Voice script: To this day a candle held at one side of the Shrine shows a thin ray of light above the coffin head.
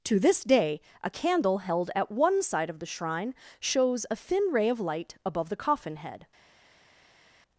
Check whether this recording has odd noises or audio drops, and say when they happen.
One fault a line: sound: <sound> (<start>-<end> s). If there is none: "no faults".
no faults